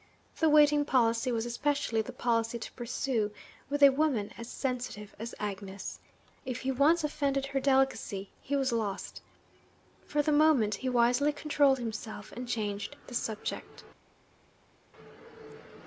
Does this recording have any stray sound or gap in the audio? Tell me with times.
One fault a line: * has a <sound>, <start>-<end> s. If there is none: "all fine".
all fine